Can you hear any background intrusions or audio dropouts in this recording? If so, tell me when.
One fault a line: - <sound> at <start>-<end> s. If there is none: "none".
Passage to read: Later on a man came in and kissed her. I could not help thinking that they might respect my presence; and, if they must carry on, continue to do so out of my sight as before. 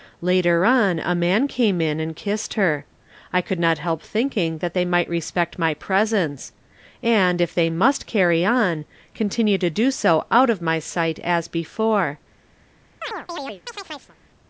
- chirp at 13.0-14.2 s